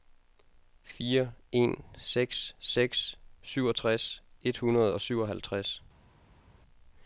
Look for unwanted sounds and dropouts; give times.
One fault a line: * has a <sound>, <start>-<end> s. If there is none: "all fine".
all fine